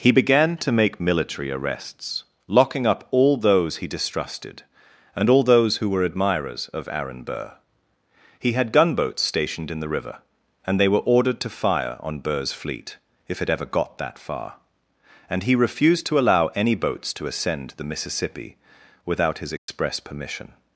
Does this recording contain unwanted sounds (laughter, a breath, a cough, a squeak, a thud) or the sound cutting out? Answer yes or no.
yes